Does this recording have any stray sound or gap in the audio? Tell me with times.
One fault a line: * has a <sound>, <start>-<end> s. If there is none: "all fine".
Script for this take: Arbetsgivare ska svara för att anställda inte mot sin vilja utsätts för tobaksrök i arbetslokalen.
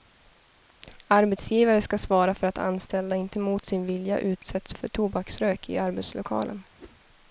* has a whoosh, 6.8-7.0 s